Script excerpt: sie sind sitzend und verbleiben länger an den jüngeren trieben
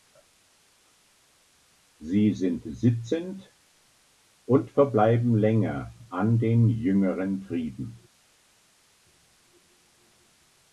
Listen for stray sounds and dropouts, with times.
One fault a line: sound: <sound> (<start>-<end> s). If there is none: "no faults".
no faults